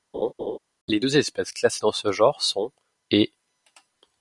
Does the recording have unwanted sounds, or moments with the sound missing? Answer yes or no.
yes